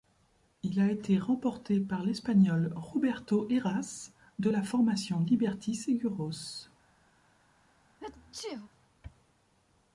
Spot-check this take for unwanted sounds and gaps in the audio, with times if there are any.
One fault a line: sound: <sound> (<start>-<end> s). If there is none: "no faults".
sound: sneeze (8.0-8.7 s)